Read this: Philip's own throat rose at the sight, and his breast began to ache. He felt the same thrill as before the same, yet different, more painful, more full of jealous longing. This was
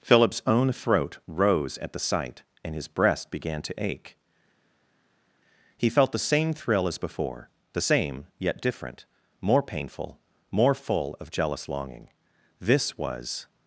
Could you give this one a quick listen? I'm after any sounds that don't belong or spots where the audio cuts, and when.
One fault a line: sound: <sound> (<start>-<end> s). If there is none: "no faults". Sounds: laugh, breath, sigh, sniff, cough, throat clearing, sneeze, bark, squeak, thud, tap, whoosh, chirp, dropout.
no faults